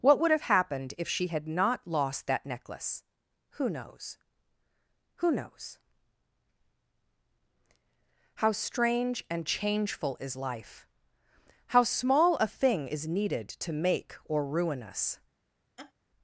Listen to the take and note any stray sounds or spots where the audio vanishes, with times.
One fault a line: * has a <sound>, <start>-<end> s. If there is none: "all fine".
* has a laugh, 15.8-15.9 s